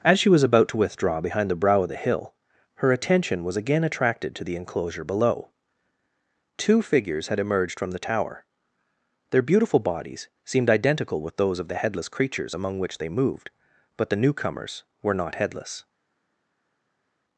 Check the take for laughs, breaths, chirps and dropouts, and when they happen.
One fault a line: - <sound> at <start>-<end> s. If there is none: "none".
none